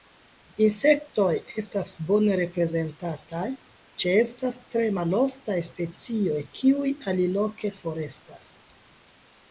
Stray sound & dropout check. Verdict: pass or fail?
pass